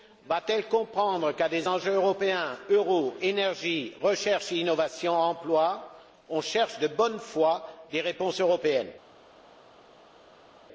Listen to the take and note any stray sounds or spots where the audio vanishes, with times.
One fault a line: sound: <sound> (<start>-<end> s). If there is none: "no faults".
no faults